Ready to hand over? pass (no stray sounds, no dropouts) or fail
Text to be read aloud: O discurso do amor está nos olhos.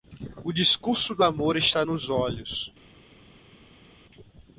pass